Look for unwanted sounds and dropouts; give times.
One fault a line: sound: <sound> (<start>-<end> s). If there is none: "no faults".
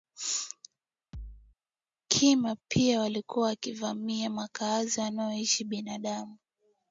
sound: thud (1.1-1.6 s)